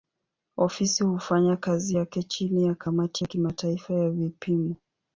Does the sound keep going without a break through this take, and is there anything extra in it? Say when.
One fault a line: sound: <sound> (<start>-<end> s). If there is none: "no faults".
no faults